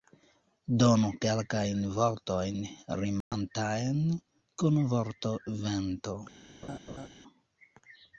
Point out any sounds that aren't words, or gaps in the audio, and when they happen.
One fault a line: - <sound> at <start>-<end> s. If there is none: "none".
- dropout at 3.2-3.3 s
- laugh at 6.6-7.1 s